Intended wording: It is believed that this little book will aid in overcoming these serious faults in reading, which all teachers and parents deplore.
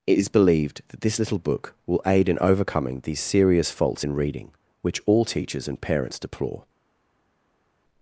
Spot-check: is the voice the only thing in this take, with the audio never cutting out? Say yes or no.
yes